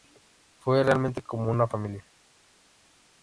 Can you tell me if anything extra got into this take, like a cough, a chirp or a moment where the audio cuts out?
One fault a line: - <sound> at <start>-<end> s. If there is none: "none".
none